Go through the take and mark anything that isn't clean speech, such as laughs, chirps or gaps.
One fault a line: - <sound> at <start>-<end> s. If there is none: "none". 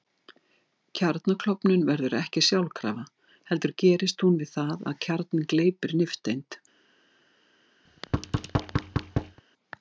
- thud at 7.9-9.4 s